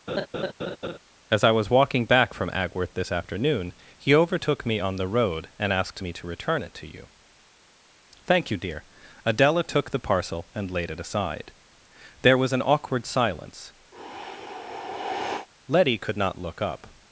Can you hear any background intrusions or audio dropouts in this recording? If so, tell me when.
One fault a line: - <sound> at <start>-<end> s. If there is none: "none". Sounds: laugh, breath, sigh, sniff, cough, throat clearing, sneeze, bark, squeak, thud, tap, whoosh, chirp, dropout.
- laugh at 0.1-1.0 s
- sigh at 13.9-15.5 s